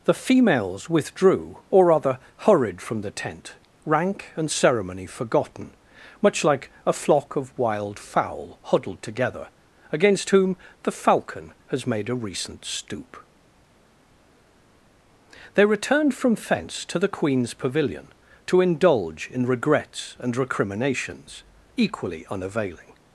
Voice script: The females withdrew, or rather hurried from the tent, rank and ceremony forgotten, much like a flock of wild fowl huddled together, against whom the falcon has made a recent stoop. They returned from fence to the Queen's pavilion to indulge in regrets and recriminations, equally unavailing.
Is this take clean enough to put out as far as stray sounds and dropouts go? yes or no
yes